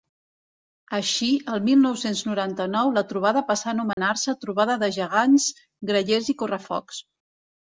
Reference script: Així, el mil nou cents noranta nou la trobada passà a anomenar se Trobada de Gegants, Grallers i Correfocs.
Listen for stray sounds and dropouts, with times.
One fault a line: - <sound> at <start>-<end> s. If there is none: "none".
- dropout at 3.9-4.0 s